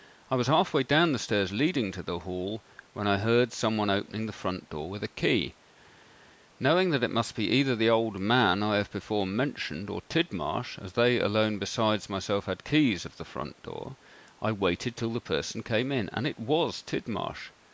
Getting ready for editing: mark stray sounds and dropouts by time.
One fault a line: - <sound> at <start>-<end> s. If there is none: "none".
none